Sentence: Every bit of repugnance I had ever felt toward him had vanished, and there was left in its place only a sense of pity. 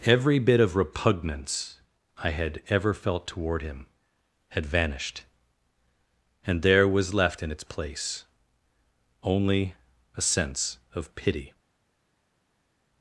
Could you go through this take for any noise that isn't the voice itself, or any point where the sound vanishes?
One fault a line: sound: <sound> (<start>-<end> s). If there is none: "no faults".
no faults